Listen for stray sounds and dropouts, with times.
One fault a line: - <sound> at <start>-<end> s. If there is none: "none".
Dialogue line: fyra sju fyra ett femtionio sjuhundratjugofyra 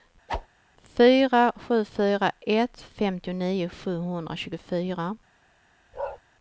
- whoosh at 0.3-0.5 s
- bark at 5.9-6.2 s